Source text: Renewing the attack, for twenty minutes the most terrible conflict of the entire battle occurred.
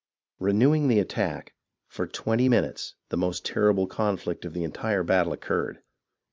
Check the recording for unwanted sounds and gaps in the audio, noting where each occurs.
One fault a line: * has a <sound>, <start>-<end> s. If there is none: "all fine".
all fine